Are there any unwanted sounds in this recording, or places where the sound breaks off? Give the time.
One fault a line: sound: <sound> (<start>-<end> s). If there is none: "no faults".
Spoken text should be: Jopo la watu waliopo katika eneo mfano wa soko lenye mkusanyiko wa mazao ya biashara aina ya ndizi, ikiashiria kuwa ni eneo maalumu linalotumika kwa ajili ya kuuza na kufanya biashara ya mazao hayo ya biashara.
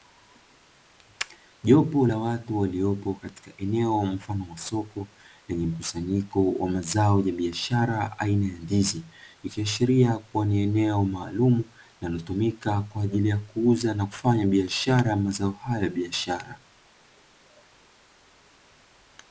no faults